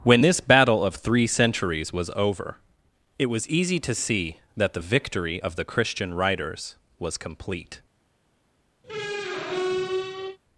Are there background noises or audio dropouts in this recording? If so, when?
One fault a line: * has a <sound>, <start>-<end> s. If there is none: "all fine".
* has a squeak, 8.8-10.4 s